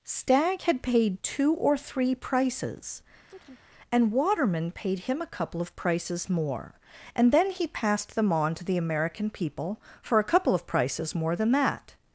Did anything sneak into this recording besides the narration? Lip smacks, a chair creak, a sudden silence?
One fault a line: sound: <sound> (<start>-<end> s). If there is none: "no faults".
sound: chirp (3.3-3.6 s)